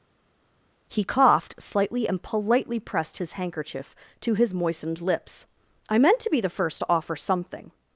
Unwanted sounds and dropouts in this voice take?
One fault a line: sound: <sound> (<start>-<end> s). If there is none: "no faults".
no faults